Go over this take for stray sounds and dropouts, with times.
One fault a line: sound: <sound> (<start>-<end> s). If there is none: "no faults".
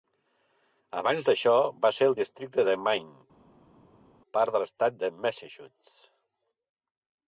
no faults